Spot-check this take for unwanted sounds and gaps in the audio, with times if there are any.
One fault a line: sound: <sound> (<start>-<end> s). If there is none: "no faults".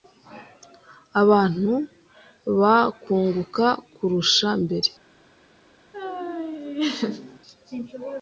sound: laugh (5.9-7.4 s)